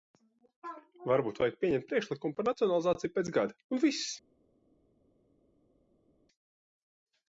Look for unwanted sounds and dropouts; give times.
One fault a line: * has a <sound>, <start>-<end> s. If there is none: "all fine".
all fine